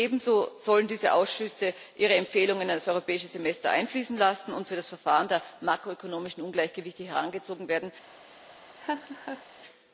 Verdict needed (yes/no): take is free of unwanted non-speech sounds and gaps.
no